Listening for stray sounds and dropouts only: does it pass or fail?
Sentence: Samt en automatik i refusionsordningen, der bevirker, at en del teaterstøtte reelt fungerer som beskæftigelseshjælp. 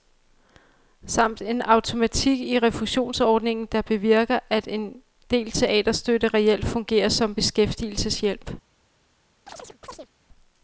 fail